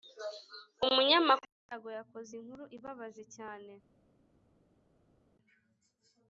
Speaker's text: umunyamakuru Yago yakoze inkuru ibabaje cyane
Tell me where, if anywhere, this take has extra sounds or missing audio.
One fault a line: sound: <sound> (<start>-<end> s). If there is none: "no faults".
no faults